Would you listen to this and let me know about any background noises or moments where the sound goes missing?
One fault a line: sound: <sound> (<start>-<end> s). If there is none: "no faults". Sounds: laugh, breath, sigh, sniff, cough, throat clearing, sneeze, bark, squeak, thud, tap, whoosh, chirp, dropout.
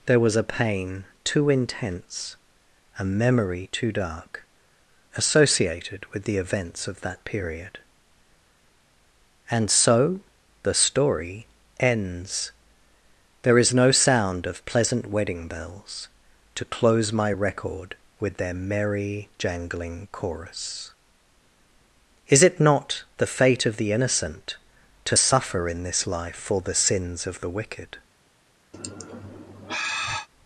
sound: sigh (28.7-30.3 s)